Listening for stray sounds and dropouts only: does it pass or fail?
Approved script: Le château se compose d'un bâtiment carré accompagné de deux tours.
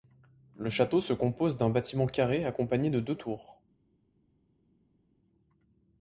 pass